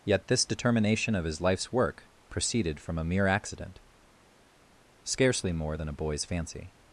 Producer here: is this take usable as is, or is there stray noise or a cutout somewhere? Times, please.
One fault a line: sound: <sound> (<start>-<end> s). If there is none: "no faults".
no faults